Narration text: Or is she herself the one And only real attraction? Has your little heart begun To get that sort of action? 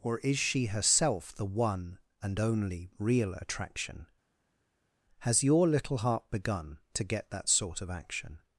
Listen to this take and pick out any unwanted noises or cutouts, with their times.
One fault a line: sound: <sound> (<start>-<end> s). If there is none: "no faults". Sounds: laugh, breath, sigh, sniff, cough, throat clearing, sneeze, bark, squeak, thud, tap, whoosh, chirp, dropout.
no faults